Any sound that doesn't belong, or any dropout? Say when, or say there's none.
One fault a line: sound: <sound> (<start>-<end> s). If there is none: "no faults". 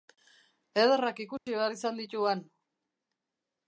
sound: dropout (1.4-1.5 s)